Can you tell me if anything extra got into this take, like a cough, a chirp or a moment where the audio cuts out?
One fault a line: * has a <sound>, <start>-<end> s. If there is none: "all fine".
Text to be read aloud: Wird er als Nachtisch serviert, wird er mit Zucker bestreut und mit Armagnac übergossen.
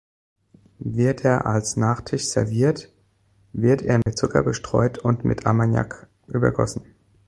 * has a dropout, 4.0-4.1 s